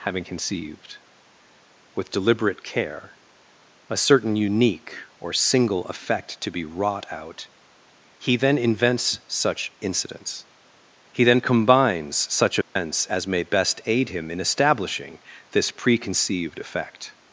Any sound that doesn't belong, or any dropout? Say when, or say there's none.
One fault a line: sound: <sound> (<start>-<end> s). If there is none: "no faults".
sound: dropout (12.6-12.8 s)